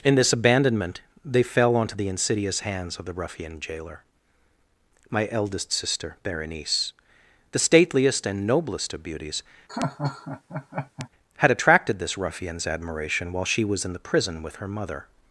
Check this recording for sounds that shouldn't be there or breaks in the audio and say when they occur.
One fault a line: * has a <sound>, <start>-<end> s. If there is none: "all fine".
* has a laugh, 9.7-11.1 s